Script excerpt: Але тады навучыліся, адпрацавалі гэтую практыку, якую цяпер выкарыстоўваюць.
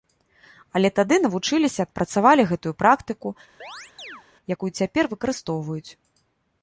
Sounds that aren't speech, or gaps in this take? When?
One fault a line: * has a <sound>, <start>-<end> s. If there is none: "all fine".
* has a chirp, 3.6-4.2 s